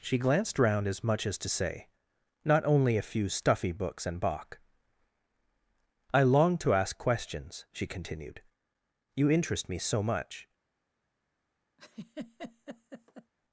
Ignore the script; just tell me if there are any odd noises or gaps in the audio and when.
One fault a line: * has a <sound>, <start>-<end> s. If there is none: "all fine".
* has a laugh, 11.8-13.3 s